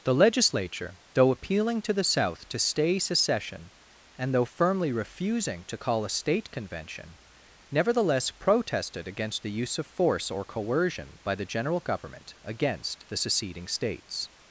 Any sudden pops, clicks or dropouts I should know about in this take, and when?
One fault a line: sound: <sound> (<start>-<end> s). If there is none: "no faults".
no faults